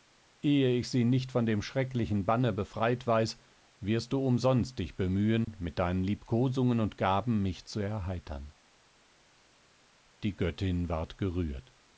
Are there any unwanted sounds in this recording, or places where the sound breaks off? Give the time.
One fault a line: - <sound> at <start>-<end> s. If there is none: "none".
- dropout at 5.4-5.5 s